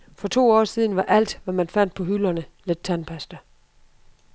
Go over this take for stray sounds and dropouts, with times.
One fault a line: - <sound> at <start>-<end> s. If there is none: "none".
none